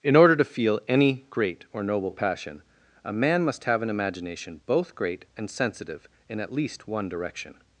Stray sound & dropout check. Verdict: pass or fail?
pass